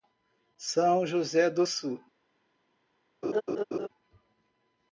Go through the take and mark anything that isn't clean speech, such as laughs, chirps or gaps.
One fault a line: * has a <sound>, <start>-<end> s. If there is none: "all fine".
* has a laugh, 3.2-3.9 s